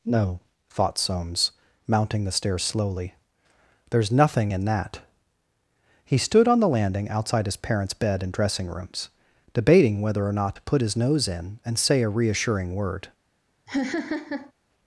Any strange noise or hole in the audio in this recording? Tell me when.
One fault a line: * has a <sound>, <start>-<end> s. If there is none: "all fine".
* has a laugh, 13.7-14.5 s